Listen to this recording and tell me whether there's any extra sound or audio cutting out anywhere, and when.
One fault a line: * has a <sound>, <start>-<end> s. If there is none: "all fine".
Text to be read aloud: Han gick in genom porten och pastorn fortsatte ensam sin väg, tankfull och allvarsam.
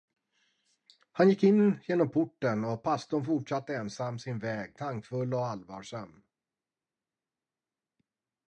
all fine